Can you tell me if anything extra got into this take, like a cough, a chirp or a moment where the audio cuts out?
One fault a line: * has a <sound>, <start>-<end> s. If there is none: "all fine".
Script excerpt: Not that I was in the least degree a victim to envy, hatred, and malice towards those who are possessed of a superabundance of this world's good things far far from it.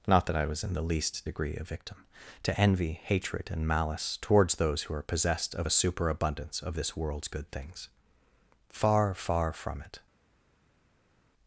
all fine